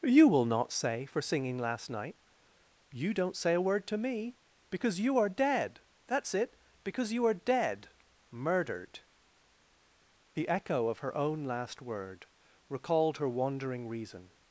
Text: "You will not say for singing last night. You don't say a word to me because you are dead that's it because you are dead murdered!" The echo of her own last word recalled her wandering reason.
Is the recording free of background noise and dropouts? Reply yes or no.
yes